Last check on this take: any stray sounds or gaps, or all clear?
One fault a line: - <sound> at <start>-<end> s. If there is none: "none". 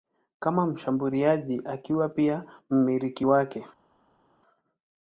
none